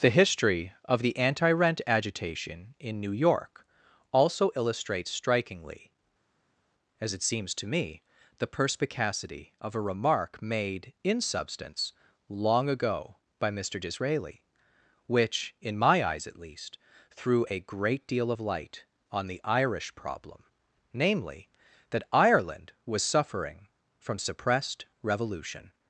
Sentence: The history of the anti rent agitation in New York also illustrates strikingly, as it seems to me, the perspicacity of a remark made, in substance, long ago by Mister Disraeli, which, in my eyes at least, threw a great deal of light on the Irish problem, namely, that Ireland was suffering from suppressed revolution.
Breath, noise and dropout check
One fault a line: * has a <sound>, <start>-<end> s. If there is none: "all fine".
all fine